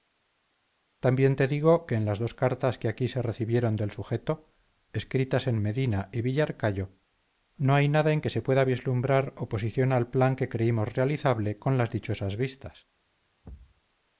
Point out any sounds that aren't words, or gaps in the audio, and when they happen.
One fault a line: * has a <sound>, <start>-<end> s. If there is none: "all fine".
* has a thud, 13.4-13.8 s